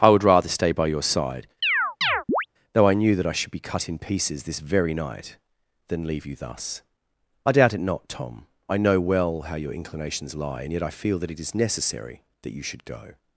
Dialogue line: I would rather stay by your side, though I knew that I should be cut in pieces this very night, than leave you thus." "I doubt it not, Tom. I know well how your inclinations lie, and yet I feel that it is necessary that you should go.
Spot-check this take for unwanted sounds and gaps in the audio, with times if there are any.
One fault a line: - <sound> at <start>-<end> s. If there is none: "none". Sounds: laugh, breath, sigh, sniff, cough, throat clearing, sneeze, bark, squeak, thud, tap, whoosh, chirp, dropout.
- chirp at 1.6-2.5 s